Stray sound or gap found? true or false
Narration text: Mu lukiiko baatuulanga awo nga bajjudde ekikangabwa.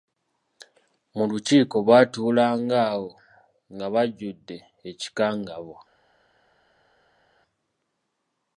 false